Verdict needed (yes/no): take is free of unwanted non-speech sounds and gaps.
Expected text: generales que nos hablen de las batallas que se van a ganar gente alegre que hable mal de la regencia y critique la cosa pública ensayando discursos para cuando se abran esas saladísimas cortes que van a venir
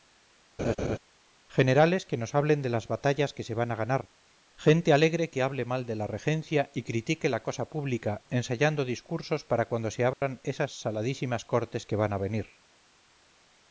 no